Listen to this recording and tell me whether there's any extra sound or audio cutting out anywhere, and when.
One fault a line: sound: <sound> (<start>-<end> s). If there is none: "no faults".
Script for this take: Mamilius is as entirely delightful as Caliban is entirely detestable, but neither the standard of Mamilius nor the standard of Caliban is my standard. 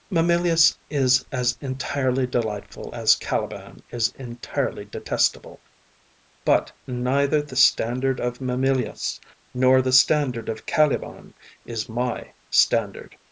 no faults